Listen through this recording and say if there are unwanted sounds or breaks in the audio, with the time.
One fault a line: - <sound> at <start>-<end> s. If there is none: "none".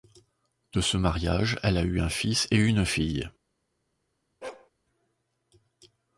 - bark at 4.4-4.7 s